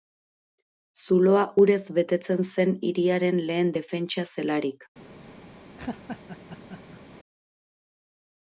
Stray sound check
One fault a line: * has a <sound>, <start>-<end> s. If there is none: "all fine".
* has a laugh, 5.8-7.0 s